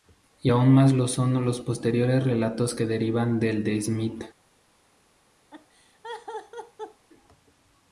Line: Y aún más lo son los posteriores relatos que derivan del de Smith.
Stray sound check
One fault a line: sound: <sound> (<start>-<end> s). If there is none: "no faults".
sound: laugh (5.5-7.1 s)